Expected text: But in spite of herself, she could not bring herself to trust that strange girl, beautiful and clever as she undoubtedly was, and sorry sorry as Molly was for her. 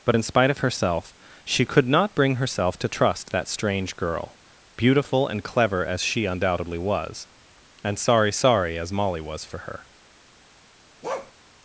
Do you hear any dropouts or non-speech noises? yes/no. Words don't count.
yes